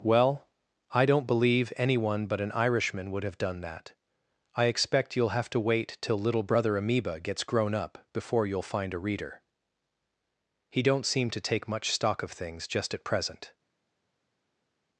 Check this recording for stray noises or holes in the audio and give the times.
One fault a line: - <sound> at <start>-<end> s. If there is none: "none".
none